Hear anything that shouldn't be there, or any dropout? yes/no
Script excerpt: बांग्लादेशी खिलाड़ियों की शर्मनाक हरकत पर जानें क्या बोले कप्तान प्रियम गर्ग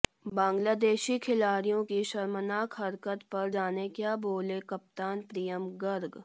no